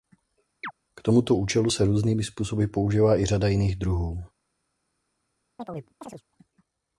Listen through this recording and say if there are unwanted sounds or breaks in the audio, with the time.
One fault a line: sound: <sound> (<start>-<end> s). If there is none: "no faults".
sound: chirp (0.6-0.7 s)
sound: chirp (5.6-6.2 s)